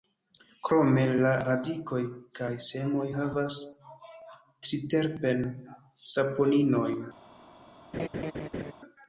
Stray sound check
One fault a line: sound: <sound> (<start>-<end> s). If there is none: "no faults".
sound: laugh (7.9-8.7 s)